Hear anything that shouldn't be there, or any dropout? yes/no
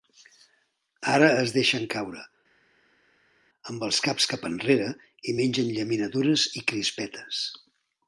no